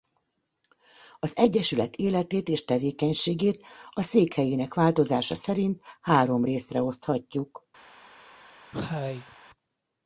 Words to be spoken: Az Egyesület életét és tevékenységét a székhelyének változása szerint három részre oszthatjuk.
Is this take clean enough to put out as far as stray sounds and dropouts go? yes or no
no